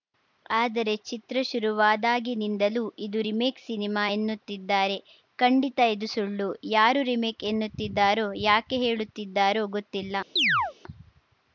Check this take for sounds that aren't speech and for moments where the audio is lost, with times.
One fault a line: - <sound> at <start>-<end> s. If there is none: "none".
- chirp at 10.4-10.7 s